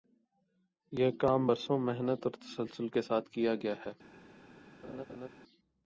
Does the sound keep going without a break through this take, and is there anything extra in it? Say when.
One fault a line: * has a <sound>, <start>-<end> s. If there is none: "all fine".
* has a laugh, 4.8-5.3 s